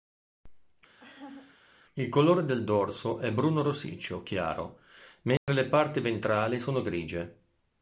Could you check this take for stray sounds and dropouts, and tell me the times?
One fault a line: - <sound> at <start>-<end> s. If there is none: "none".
- laugh at 1.0-1.6 s
- dropout at 5.4-5.5 s